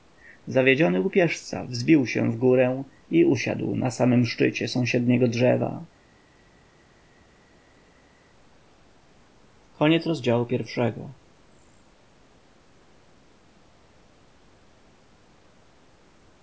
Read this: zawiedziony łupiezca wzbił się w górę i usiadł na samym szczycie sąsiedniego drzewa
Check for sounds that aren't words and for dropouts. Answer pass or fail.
pass